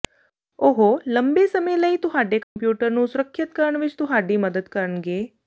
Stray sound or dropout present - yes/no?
yes